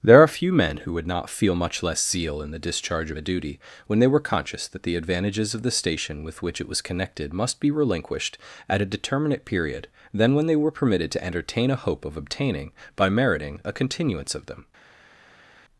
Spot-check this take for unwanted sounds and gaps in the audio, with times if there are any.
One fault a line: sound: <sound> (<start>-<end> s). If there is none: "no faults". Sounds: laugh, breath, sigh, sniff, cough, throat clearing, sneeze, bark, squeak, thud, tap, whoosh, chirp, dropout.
no faults